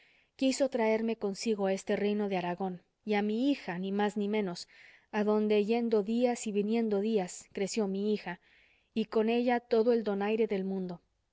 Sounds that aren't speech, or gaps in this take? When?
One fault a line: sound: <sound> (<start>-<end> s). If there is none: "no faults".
no faults